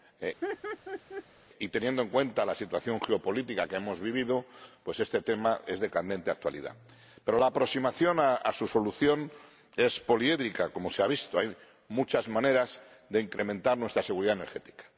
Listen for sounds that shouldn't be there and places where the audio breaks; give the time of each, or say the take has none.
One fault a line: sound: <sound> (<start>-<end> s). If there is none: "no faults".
sound: laugh (0.4-1.2 s)